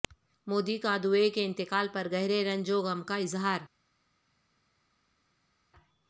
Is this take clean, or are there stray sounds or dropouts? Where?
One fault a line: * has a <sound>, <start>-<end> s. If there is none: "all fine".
all fine